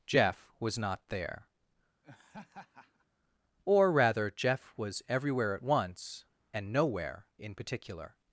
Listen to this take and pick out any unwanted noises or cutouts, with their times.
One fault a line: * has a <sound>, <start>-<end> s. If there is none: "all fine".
* has a laugh, 2.0-3.1 s